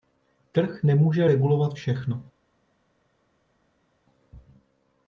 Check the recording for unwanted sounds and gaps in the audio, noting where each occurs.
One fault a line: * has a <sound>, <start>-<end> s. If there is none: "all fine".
all fine